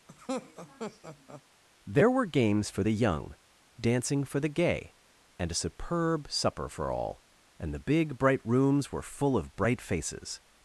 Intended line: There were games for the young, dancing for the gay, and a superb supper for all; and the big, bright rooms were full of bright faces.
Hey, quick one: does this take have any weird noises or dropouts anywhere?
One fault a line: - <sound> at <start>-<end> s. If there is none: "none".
- laugh at 0.1-1.4 s